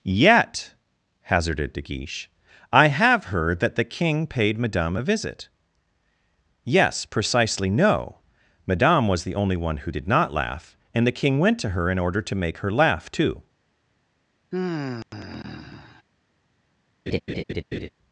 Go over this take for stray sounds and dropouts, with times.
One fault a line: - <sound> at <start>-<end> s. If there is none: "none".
- sigh at 14.5-16.0 s
- laugh at 17.1-17.9 s